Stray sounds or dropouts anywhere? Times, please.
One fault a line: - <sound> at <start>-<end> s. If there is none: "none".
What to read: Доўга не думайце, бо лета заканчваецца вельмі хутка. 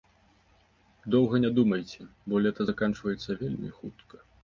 none